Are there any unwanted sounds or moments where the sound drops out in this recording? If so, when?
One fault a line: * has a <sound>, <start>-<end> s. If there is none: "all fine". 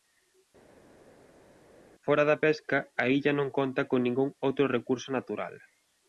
all fine